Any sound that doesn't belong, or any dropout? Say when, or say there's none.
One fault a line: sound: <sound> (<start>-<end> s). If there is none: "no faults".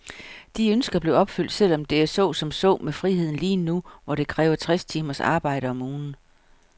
no faults